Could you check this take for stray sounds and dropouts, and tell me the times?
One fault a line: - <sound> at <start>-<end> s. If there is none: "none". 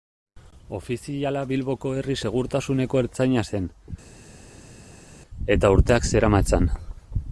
none